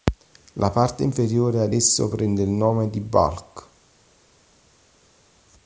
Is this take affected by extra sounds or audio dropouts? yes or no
no